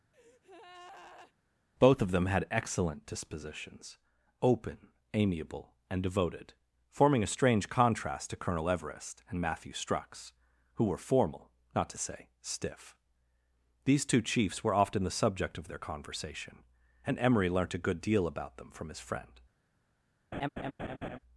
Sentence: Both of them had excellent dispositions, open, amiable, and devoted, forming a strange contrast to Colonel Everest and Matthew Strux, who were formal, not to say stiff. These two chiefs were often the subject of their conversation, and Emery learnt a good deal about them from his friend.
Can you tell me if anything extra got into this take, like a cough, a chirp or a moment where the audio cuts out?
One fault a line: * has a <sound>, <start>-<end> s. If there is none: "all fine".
* has a breath, 0.1-1.3 s
* has a laugh, 20.3-21.2 s